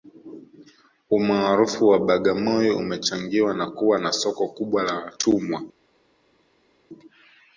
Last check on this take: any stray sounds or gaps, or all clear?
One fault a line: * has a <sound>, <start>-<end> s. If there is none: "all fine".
all fine